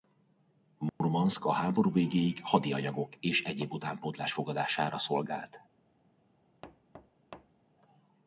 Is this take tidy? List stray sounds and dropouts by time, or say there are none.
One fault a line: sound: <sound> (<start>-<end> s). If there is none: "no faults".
sound: dropout (0.9-1.0 s)
sound: thud (6.6-7.7 s)